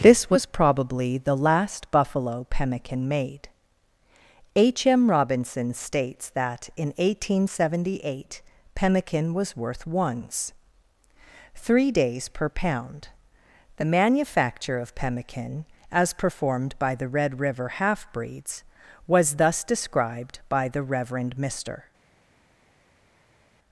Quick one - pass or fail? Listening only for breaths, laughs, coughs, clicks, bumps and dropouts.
pass